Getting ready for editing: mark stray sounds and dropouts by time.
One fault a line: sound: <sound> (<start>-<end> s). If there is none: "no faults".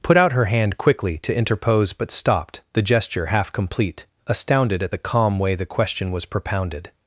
no faults